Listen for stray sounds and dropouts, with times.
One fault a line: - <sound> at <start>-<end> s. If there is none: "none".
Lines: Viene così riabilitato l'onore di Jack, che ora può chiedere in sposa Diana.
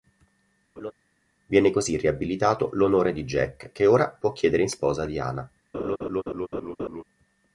- laugh at 0.8-0.9 s
- laugh at 5.7-7.0 s